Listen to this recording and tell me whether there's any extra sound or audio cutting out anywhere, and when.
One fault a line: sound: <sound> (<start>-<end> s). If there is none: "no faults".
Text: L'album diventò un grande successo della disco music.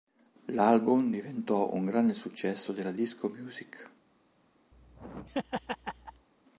sound: laugh (4.7-6.3 s)